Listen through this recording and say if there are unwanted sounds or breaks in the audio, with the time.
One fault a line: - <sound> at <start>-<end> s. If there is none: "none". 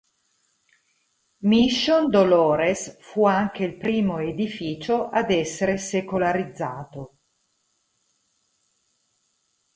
none